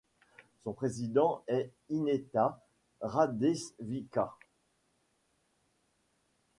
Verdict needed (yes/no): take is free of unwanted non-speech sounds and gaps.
yes